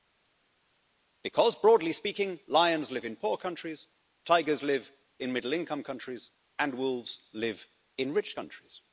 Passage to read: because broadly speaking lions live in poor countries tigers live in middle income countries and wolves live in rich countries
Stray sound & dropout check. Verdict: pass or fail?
pass